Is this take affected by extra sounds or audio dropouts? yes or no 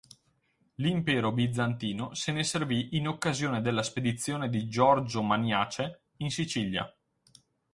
no